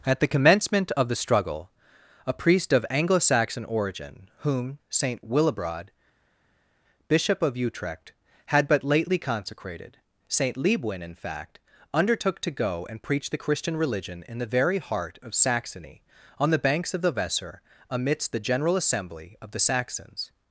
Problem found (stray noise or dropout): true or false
false